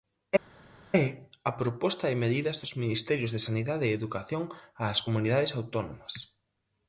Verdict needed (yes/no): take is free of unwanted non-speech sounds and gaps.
yes